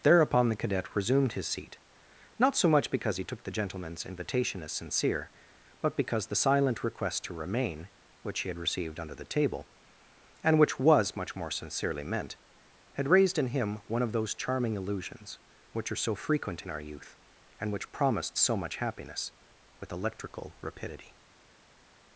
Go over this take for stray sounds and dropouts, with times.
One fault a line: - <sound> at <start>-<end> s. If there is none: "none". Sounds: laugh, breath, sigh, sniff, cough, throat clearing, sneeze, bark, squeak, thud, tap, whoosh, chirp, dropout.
none